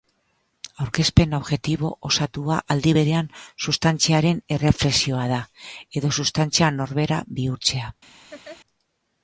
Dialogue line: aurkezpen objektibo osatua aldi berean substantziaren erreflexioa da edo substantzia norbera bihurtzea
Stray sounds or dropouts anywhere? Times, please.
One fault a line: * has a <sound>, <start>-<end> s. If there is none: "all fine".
* has a laugh, 8.3-8.6 s